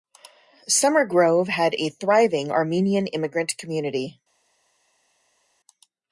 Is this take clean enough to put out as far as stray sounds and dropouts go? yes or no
yes